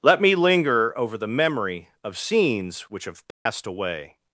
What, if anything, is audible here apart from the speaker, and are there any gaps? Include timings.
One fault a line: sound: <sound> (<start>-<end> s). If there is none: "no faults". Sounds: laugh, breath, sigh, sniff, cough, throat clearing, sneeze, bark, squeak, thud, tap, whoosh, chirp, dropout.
sound: dropout (3.3-3.5 s)